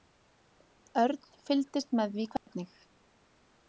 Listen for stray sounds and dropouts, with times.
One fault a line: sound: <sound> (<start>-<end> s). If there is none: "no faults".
sound: dropout (2.4-2.5 s)